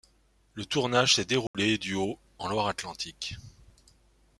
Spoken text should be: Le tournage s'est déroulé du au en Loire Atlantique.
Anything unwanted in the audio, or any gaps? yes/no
yes